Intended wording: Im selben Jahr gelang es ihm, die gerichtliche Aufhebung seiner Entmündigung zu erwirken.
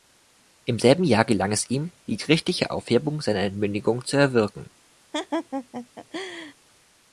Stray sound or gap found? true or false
true